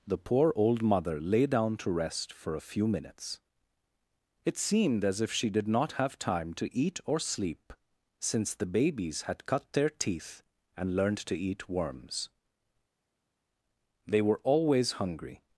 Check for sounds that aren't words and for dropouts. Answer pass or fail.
pass